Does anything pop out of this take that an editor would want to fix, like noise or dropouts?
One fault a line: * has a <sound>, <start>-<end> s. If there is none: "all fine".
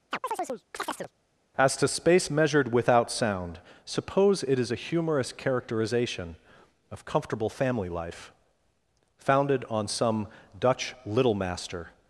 * has a chirp, 0.1-1.1 s